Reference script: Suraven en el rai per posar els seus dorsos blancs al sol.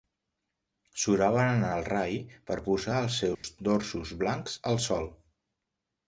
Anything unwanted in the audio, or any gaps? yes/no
yes